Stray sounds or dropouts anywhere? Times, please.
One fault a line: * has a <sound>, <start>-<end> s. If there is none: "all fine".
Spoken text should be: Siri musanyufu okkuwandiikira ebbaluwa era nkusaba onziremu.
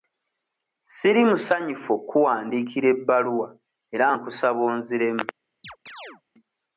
* has a chirp, 5.6-6.2 s